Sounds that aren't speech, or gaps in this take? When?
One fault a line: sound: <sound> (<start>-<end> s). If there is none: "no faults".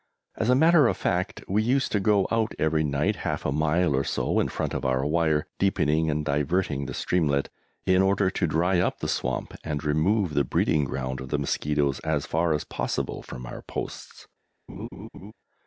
sound: laugh (14.7-15.3 s)